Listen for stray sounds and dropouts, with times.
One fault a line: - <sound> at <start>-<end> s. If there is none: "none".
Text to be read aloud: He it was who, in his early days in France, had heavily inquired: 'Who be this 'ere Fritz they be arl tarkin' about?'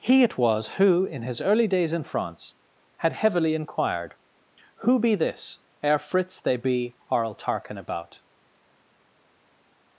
none